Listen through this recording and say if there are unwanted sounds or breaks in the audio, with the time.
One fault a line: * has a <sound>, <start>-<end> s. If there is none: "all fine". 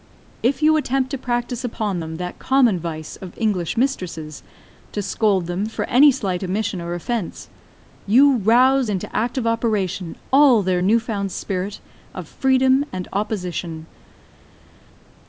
all fine